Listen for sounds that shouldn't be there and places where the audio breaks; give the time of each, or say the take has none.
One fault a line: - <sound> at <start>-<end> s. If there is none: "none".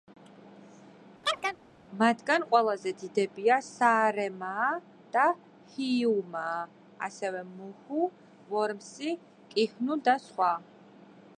- chirp at 1.2-1.6 s